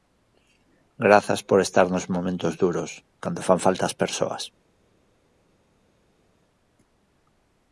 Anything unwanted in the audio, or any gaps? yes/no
no